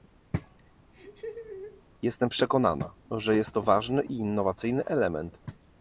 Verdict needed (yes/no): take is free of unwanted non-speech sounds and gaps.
no